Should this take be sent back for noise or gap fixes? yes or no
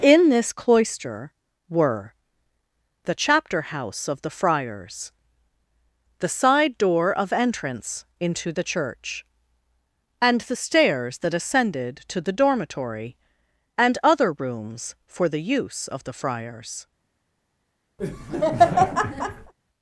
yes